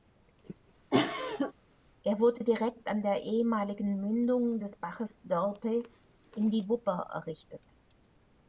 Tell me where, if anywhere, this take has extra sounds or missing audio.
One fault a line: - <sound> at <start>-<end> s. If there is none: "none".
- cough at 0.9-1.5 s